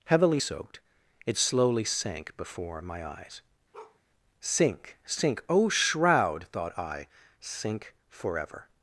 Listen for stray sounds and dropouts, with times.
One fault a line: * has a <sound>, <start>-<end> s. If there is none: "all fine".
* has a bark, 3.7-4.0 s